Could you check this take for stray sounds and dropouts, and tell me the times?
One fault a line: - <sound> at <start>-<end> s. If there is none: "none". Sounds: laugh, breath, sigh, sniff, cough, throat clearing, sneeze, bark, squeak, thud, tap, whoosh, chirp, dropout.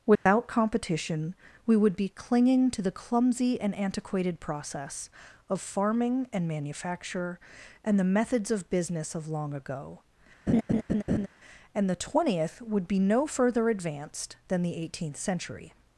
- dropout at 0.2-0.3 s
- laugh at 10.5-11.3 s